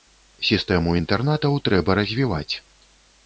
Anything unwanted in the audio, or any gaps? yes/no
no